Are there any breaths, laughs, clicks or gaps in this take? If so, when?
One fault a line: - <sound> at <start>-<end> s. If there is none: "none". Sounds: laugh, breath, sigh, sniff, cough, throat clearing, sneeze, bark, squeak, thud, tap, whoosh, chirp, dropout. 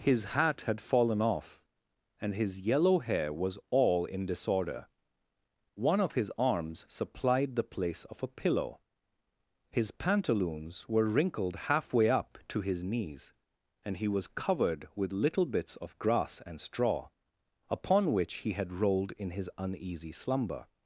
none